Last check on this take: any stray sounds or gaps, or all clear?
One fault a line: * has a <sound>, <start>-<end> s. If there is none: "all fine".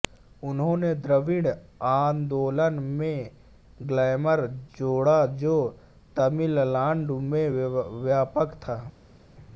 all fine